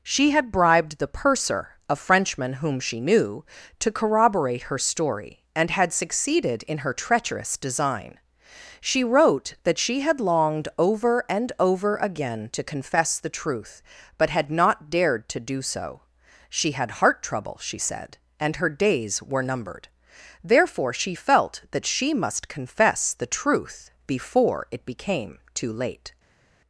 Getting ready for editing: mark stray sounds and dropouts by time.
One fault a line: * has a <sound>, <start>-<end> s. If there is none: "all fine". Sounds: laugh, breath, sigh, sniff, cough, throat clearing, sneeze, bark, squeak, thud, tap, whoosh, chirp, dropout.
all fine